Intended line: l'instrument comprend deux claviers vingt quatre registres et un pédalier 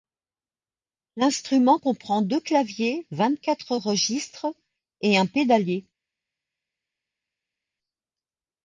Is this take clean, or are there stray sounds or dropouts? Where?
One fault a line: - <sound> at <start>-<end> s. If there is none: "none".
none